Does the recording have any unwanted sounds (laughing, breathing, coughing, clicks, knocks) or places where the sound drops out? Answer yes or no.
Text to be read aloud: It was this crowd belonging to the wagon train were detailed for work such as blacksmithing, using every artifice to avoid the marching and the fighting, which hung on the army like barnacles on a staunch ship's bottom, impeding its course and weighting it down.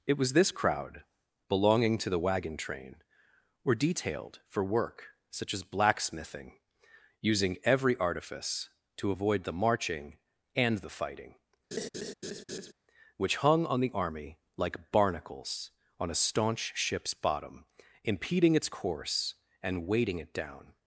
yes